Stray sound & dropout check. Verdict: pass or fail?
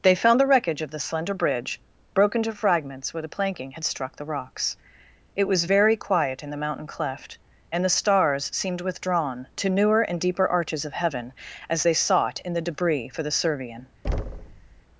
fail